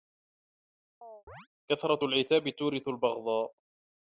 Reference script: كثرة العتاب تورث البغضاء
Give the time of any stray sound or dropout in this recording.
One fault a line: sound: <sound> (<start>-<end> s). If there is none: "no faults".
sound: chirp (1.0-1.5 s)